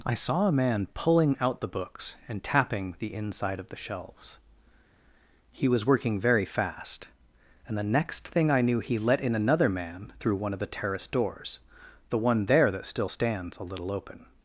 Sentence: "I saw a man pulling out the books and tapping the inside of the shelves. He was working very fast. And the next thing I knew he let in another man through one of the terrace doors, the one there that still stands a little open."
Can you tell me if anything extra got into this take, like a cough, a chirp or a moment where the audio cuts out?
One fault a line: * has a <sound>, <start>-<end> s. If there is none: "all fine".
all fine